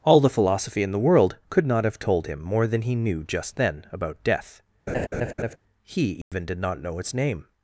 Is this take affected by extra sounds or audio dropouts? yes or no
yes